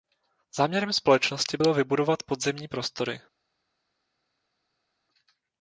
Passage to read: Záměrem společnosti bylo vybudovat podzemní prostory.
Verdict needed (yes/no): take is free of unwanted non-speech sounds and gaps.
yes